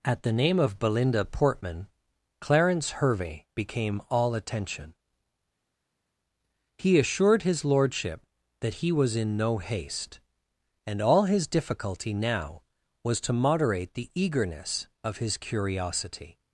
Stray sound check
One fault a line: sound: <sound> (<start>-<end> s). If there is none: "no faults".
no faults